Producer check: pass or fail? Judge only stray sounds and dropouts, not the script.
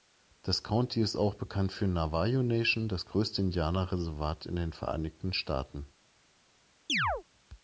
fail